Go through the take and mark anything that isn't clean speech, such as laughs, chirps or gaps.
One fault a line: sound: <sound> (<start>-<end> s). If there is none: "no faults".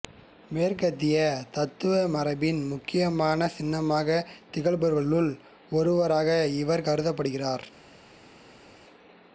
no faults